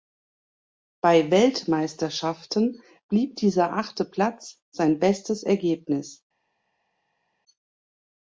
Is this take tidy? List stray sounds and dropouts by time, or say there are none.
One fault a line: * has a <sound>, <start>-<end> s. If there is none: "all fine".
all fine